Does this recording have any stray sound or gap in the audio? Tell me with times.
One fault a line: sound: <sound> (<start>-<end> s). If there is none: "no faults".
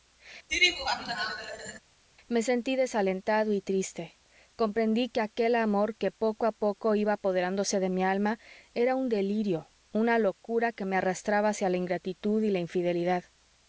sound: laugh (0.5-1.8 s)